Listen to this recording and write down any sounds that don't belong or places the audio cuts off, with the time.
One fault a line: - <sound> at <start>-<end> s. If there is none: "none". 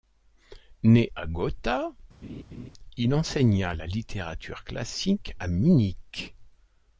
- laugh at 2.2-2.7 s